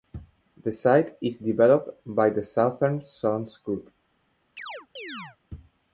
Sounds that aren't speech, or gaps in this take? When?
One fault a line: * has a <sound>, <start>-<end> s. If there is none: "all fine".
* has a chirp, 4.6-5.4 s